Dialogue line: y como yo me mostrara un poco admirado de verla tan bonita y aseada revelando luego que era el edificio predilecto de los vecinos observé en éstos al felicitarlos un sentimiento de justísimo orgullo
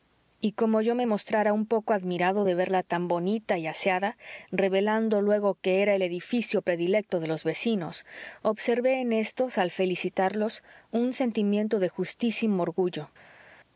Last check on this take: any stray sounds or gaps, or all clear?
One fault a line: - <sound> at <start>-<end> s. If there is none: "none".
none